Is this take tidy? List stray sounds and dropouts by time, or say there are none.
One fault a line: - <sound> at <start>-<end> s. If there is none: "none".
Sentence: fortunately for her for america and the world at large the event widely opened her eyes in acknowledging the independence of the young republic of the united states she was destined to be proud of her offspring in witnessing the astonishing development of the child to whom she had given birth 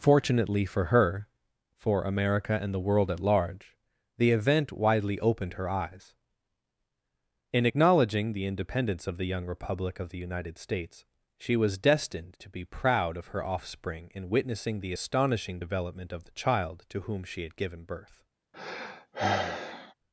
- sigh at 18.5-19.9 s